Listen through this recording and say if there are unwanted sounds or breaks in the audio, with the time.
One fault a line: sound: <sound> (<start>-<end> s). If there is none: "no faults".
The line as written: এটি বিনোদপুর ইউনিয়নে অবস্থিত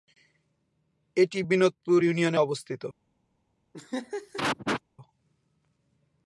sound: laugh (3.7-4.8 s)